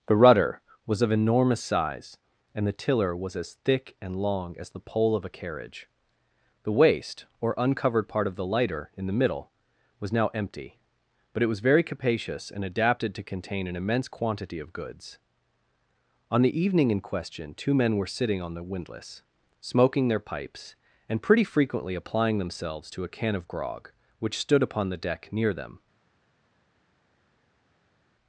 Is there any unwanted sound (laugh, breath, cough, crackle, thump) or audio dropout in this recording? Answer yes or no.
no